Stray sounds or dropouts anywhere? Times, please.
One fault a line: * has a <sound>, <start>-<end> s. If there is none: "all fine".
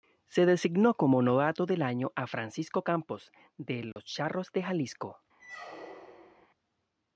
* has a dropout, 3.9-4.0 s
* has a squeak, 5.4-6.5 s